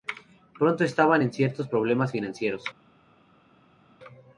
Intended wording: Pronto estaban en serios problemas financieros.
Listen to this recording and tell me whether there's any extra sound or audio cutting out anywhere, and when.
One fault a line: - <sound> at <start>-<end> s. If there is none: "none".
none